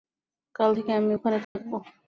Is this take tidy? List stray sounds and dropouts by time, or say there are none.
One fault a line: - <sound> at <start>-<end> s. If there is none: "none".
- dropout at 1.4-1.6 s